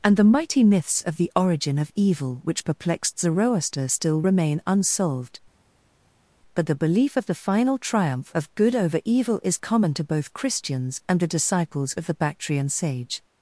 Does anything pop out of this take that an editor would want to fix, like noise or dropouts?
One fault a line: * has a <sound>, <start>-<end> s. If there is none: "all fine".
all fine